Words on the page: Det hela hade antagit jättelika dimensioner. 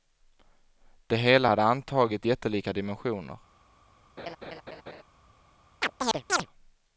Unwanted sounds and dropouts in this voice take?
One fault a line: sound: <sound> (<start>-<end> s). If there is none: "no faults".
sound: laugh (4.2-5.0 s)
sound: chirp (5.8-6.5 s)